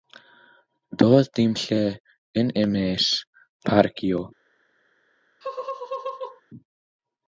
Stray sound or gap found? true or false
true